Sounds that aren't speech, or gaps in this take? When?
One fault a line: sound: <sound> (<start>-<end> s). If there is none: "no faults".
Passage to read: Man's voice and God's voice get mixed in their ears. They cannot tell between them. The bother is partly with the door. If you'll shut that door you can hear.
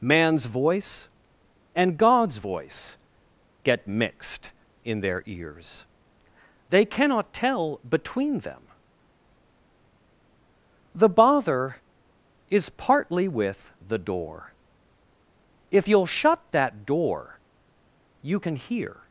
no faults